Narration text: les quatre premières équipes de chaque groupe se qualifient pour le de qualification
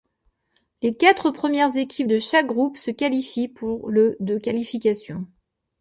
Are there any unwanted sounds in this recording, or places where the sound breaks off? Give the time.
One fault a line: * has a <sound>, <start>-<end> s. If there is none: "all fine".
all fine